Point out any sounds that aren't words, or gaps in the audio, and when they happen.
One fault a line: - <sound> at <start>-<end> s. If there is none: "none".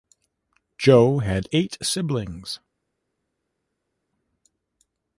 none